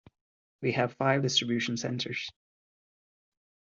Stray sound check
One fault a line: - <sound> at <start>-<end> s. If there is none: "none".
none